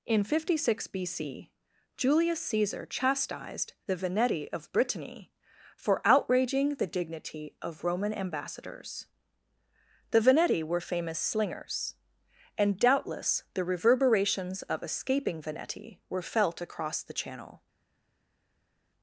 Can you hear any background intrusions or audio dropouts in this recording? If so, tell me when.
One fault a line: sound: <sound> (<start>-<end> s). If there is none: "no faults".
no faults